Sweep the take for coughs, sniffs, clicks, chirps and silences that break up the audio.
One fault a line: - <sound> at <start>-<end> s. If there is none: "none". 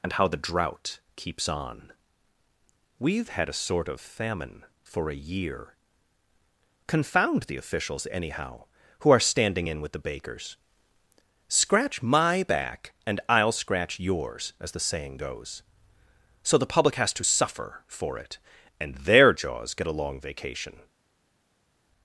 none